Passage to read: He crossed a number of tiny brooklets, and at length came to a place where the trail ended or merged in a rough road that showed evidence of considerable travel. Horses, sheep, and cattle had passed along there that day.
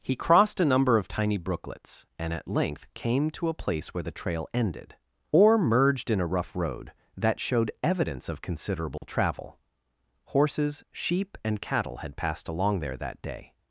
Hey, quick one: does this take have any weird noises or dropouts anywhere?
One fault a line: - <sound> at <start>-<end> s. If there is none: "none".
- dropout at 9.0-9.0 s